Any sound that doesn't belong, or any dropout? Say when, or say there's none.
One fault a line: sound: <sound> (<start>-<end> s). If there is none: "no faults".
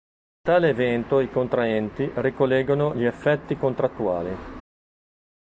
no faults